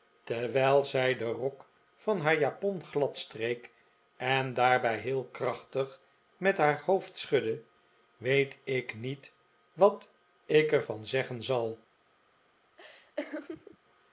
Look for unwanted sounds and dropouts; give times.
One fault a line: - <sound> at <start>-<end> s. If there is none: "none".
- laugh at 12.8-13.8 s